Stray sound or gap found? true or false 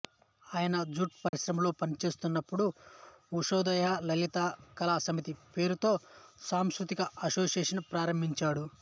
true